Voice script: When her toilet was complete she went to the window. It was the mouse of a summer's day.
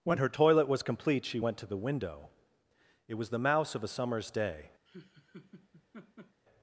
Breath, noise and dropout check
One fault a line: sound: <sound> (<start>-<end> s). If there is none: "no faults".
sound: laugh (4.9-6.4 s)